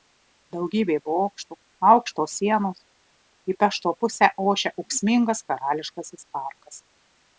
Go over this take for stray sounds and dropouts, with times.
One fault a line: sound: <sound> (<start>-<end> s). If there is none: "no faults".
no faults